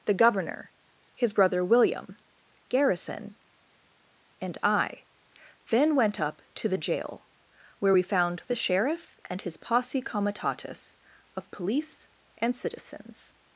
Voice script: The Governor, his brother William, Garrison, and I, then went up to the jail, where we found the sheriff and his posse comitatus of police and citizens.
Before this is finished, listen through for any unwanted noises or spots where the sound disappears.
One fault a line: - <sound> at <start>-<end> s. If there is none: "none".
none